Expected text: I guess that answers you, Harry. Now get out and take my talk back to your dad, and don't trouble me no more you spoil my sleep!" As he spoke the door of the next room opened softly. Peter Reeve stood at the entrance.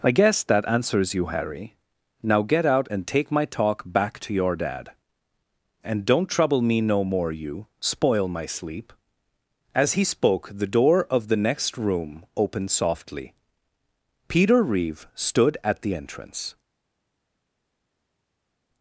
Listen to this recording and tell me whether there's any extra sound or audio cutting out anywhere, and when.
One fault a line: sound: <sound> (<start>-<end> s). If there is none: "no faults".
no faults